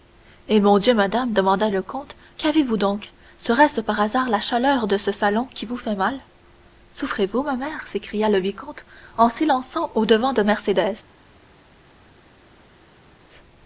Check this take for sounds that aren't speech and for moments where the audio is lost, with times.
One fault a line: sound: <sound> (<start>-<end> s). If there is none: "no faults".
no faults